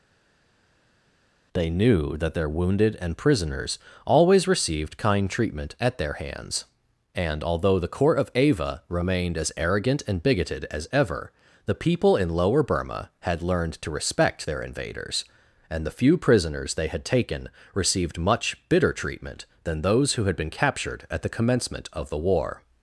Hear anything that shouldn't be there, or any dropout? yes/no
no